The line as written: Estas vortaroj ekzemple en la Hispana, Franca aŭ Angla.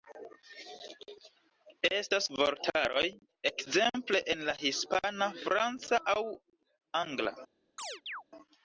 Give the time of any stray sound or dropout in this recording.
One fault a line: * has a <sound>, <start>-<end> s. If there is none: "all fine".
* has a chirp, 7.8-8.2 s